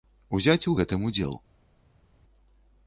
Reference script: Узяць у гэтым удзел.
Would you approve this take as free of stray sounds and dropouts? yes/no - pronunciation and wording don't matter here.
yes